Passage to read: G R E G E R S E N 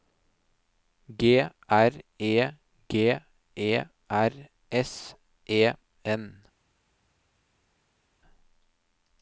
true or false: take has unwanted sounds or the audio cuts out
false